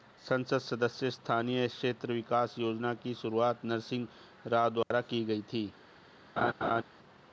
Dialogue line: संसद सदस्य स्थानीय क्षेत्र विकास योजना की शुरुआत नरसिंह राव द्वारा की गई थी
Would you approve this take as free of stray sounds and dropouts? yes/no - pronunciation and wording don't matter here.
no